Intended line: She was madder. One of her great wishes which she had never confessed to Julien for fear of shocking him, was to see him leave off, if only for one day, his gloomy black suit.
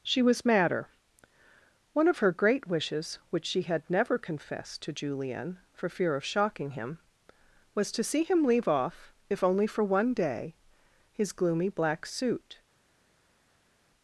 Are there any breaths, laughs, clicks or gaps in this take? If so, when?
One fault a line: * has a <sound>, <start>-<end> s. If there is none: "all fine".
all fine